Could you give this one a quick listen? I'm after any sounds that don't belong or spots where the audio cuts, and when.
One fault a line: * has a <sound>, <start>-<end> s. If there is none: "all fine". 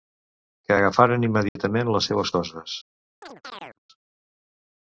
* has a dropout, 1.5-1.6 s
* has a chirp, 3.2-3.8 s